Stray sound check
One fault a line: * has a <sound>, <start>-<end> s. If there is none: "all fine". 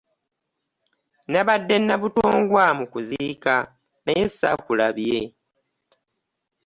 all fine